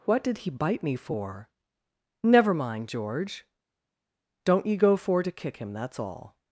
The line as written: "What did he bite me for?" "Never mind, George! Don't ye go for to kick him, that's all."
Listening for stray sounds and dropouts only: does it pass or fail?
pass